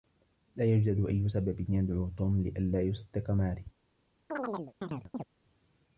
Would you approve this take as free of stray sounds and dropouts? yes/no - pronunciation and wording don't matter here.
no